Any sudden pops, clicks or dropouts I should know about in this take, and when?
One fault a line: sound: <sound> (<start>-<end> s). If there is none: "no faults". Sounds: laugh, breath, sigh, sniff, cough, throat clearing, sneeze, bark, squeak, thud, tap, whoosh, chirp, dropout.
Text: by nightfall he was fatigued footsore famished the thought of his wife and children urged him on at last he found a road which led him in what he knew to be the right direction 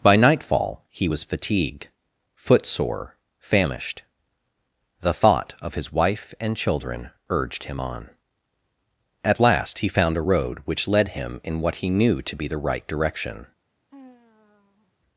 sound: sigh (13.9-14.9 s)